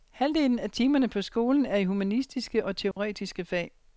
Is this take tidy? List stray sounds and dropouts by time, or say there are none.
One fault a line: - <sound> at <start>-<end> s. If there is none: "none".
- dropout at 2.9-3.0 s